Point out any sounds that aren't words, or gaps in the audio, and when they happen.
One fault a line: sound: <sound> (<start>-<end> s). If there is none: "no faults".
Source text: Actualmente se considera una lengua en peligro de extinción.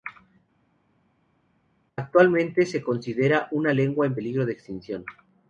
no faults